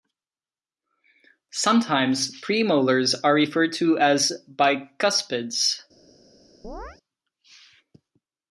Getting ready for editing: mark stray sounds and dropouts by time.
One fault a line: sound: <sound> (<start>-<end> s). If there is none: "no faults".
sound: chirp (6.6-7.0 s)